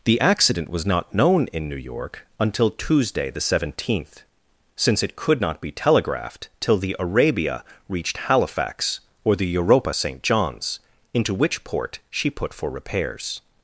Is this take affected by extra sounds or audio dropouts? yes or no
no